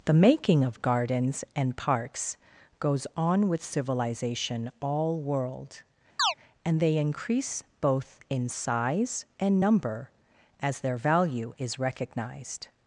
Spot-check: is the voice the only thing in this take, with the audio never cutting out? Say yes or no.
no